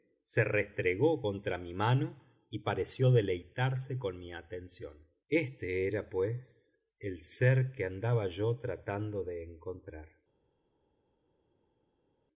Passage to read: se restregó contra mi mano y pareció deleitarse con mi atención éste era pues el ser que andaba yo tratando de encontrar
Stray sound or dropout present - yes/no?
no